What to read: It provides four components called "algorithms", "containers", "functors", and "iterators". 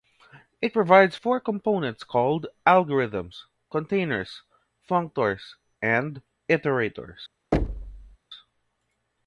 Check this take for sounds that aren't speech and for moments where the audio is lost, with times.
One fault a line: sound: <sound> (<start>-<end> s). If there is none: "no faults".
sound: thud (7.5-8.2 s)